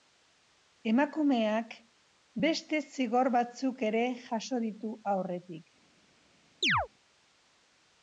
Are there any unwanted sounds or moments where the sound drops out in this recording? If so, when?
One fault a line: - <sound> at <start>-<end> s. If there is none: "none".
- chirp at 6.6-6.9 s